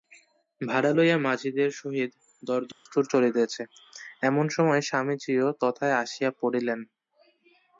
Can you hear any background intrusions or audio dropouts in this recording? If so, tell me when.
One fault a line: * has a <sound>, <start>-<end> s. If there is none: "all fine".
* has a dropout, 2.7-2.9 s